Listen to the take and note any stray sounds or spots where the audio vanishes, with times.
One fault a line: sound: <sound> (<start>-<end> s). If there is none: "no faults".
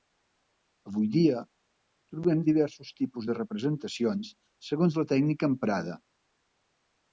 no faults